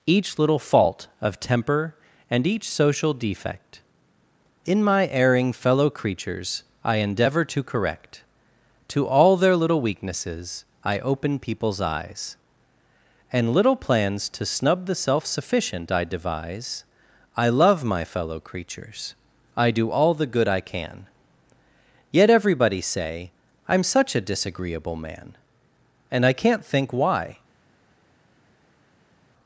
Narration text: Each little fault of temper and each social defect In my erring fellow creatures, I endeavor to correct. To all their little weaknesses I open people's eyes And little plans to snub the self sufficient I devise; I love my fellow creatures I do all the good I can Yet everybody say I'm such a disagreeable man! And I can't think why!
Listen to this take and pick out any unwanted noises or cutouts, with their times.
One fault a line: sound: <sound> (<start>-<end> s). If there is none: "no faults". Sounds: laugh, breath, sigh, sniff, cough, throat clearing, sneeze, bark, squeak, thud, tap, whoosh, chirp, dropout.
no faults